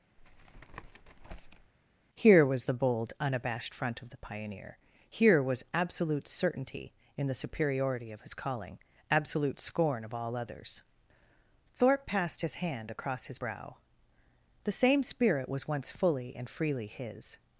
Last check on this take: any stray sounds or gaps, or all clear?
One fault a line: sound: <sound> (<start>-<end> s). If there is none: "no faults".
sound: tap (0.2-1.7 s)